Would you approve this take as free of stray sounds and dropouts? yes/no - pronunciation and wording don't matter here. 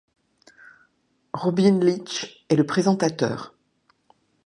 yes